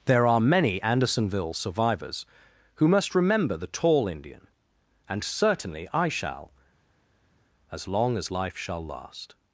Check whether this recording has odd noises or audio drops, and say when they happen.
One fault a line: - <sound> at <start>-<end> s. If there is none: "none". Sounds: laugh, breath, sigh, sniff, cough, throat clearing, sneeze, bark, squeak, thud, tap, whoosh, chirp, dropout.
none